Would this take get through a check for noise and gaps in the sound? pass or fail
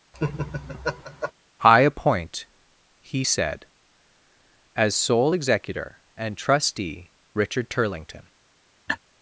fail